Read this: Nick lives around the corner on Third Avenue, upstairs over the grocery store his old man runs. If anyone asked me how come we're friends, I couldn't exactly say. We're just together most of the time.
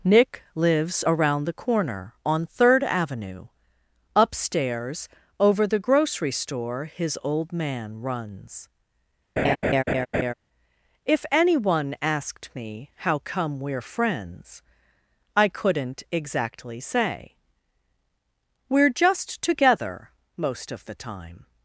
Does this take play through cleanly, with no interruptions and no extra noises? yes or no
no